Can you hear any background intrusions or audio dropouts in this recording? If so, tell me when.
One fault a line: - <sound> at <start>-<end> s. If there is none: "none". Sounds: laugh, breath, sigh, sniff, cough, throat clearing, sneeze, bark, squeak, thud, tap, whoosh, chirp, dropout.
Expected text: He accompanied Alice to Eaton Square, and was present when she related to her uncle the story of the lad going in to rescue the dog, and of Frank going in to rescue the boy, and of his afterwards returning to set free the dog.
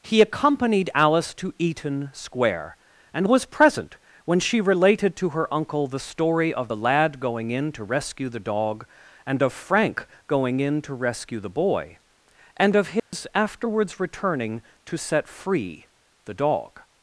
- dropout at 13.0-13.1 s